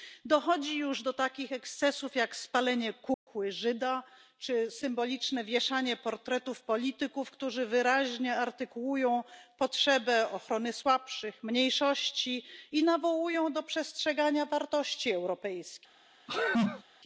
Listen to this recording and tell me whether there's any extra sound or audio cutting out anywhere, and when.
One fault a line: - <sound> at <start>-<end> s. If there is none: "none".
- dropout at 3.1-3.3 s
- sneeze at 16.3-16.8 s